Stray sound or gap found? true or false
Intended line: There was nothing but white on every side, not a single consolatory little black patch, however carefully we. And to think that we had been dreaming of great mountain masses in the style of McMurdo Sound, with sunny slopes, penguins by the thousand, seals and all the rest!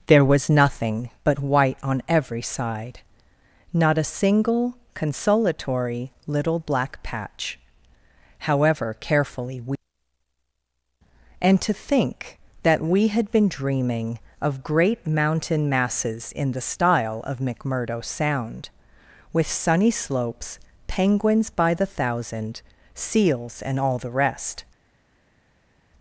false